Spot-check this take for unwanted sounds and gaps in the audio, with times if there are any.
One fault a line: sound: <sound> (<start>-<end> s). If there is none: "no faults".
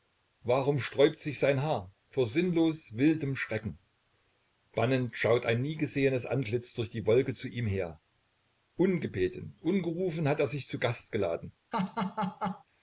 sound: laugh (11.7-12.6 s)